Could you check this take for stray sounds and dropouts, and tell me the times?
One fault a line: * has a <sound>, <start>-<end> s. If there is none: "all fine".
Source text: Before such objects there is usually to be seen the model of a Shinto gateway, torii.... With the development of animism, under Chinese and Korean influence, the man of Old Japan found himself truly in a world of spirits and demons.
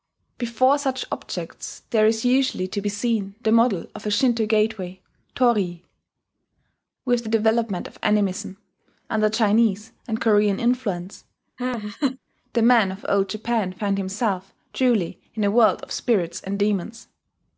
* has a laugh, 11.6-12.2 s